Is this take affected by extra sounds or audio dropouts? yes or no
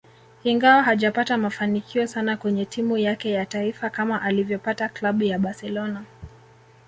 no